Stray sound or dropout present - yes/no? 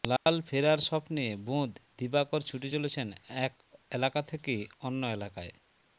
yes